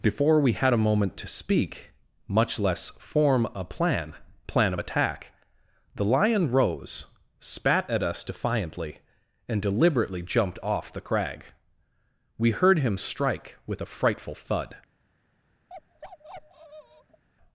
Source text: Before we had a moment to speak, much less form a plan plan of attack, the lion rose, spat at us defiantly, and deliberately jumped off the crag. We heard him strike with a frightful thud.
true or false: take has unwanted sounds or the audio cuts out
true